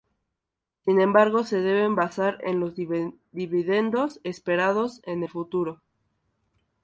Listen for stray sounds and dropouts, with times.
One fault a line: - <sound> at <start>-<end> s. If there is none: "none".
none